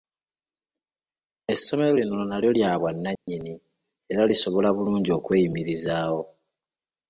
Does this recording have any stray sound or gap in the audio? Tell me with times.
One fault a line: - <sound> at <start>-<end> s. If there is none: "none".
- dropout at 3.2-3.3 s